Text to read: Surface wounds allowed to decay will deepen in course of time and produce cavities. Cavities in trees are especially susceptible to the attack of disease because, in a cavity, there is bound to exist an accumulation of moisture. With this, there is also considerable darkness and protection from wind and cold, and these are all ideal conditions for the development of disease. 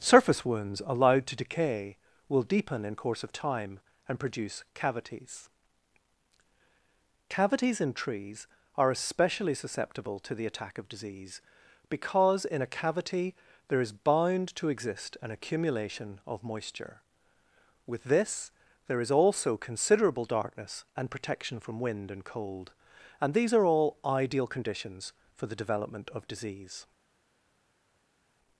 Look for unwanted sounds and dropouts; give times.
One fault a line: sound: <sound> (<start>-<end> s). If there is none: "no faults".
no faults